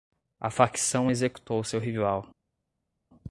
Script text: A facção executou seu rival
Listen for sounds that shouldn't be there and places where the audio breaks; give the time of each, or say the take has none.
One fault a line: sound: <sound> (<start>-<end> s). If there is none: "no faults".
no faults